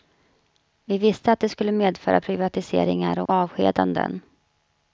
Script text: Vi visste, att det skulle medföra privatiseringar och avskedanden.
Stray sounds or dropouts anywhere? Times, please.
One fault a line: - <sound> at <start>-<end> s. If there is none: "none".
- dropout at 3.3-3.3 s